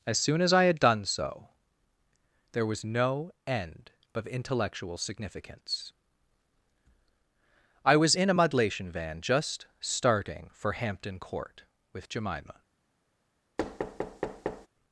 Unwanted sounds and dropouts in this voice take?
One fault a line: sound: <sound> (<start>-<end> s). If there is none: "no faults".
sound: thud (13.6-14.7 s)